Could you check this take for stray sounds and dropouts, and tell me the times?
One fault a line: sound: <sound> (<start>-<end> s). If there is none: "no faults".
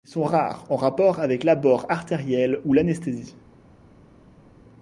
no faults